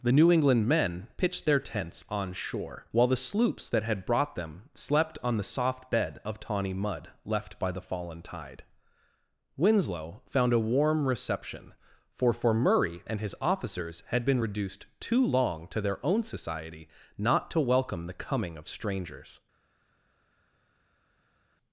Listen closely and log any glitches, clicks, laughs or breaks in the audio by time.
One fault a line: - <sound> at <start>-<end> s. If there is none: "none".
none